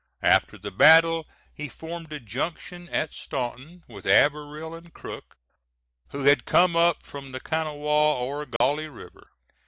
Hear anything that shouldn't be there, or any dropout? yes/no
yes